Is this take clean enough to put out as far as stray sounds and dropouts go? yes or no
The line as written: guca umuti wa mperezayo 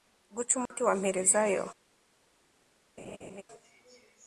no